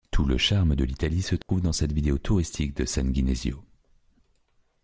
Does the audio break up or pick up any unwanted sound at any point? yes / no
yes